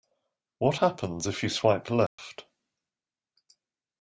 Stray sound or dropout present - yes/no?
yes